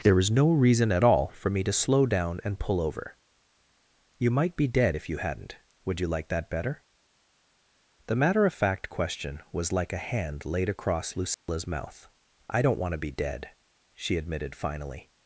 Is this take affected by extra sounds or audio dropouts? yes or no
yes